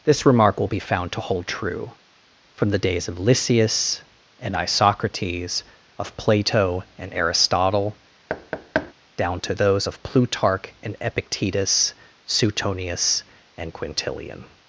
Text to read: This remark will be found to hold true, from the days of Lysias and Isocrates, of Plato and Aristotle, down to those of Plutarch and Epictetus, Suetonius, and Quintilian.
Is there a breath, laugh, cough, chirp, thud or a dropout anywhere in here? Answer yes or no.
yes